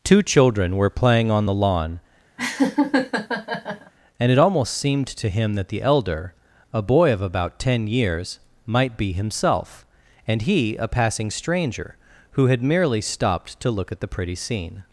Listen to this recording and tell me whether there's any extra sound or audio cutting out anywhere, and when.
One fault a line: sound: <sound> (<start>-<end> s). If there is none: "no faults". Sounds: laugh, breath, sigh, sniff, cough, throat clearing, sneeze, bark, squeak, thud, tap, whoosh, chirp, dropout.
sound: laugh (2.4-3.9 s)